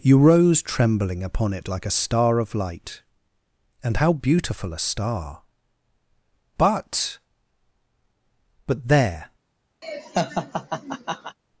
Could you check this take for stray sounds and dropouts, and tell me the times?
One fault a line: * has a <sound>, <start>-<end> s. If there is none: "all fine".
* has a laugh, 9.8-11.4 s